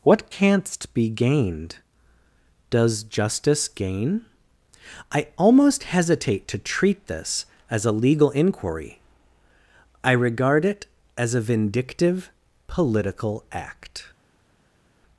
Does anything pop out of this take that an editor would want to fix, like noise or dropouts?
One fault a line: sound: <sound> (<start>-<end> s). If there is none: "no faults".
no faults